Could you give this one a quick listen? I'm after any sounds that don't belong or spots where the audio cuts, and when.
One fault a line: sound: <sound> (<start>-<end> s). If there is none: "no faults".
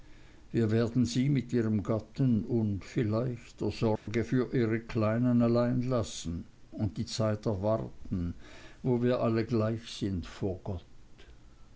sound: dropout (4.0-4.1 s)